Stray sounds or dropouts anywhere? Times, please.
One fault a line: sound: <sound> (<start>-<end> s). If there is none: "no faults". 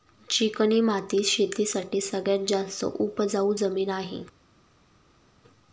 no faults